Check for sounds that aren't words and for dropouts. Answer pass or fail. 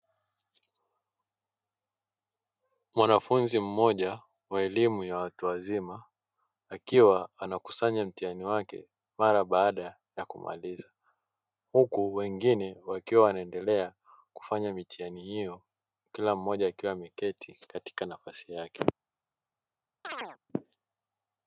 fail